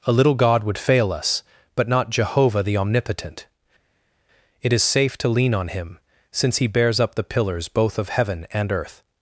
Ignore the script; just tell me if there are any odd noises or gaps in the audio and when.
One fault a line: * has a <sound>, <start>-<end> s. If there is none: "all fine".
all fine